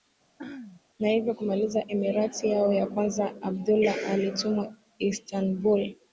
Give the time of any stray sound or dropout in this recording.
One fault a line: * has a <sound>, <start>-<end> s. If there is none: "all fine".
* has a throat clearing, 0.4-0.8 s